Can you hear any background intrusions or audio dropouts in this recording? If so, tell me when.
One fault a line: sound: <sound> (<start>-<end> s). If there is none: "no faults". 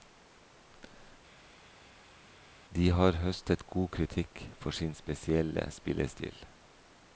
no faults